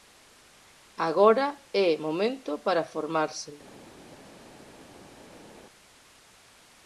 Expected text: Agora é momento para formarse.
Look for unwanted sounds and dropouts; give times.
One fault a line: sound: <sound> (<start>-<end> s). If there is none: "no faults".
no faults